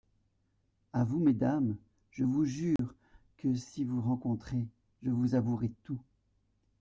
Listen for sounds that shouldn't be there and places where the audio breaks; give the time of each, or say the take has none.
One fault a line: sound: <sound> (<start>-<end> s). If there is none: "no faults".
sound: dropout (2.8-2.8 s)